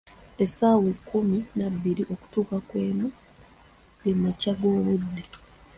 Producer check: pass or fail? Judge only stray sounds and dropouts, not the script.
pass